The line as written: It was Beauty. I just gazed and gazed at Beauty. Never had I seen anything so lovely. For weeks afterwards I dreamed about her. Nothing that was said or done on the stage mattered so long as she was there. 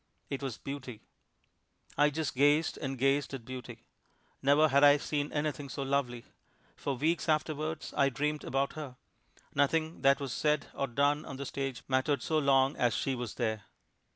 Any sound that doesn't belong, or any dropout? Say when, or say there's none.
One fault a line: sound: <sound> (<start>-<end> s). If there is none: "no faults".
no faults